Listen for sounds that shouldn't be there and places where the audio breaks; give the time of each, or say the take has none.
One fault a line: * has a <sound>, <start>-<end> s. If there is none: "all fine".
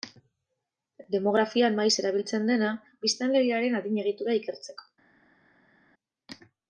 all fine